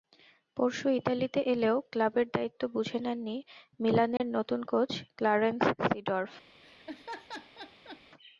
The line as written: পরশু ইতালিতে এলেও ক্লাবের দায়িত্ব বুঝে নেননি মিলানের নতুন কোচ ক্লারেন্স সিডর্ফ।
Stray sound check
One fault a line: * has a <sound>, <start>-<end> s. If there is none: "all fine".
* has a dropout, 4.2-4.2 s
* has a laugh, 6.6-8.0 s